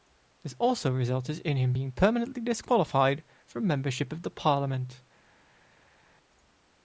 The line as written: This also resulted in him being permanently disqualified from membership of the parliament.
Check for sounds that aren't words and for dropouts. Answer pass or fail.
pass